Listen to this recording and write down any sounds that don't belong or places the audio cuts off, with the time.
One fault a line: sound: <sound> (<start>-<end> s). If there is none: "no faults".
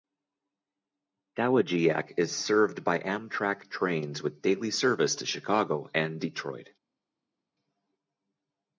no faults